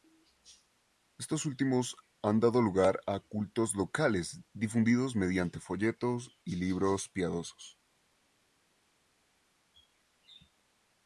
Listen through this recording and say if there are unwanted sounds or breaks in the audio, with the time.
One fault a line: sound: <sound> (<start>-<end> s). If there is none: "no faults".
no faults